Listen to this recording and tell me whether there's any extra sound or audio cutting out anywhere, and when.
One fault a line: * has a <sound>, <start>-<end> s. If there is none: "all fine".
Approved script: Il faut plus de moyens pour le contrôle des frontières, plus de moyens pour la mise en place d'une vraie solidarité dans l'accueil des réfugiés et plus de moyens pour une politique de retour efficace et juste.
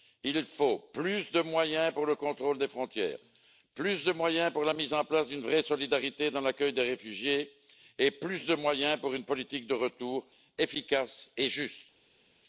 all fine